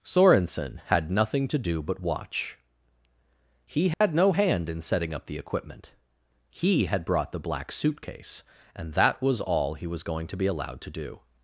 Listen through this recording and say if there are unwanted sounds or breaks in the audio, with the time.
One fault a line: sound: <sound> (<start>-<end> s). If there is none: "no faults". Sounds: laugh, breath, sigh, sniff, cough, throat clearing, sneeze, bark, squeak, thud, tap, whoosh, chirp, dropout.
sound: dropout (3.9-4.0 s)